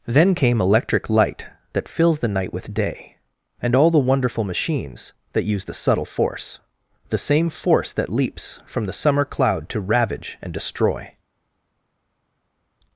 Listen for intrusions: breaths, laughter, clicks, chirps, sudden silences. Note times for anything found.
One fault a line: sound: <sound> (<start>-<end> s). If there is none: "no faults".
no faults